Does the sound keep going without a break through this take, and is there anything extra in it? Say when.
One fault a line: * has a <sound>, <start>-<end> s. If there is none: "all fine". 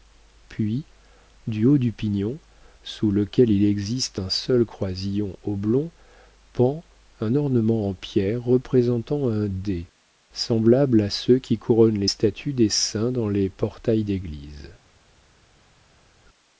all fine